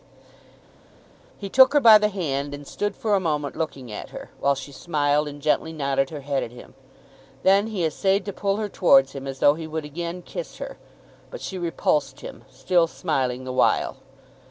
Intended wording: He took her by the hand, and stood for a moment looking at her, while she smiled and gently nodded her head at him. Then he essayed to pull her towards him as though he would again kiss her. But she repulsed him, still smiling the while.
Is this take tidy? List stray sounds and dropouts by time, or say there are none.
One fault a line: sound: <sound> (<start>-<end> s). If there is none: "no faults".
no faults